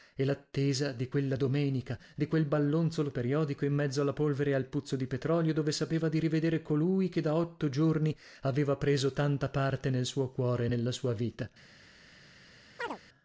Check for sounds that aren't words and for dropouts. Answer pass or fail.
fail